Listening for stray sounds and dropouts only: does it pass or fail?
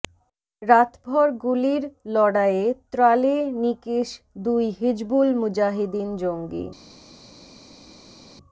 pass